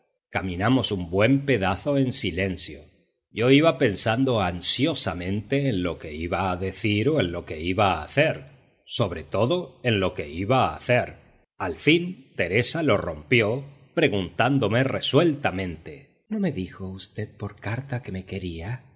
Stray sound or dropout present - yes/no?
no